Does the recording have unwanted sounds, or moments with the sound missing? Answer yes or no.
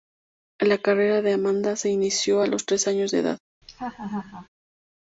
yes